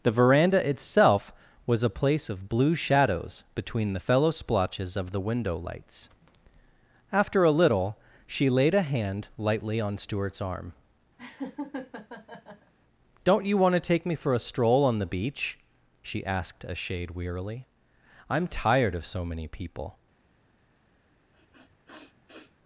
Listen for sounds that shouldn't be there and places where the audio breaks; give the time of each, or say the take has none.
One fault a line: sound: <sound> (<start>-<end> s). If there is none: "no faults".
sound: laugh (11.2-12.7 s)
sound: sniff (21.3-22.6 s)